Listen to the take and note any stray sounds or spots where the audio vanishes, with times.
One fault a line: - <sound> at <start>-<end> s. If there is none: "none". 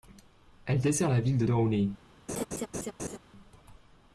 - laugh at 2.3-3.2 s